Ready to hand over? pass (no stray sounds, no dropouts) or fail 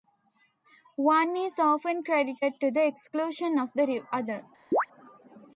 fail